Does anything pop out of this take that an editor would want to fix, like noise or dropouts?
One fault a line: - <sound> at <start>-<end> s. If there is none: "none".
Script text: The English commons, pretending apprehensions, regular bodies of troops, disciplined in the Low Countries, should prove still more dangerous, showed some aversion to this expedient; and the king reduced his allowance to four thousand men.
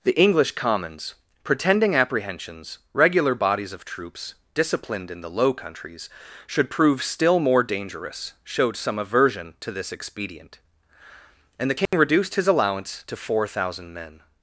- dropout at 11.9-11.9 s